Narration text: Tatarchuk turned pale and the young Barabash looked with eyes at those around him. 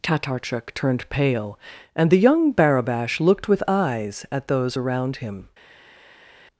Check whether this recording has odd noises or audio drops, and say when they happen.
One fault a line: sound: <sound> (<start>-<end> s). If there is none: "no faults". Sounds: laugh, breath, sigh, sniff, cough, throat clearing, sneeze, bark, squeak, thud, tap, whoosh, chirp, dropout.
no faults